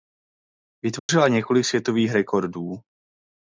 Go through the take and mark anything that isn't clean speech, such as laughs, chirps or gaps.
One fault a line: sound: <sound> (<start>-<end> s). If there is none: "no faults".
sound: dropout (1.0-1.1 s)